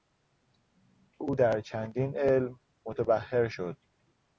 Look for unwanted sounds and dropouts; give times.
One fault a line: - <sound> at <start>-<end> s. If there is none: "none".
none